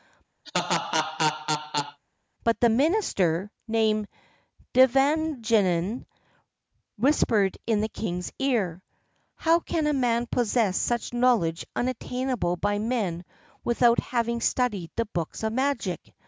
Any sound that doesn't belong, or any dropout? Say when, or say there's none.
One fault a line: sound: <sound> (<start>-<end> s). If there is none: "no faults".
sound: laugh (0.4-2.0 s)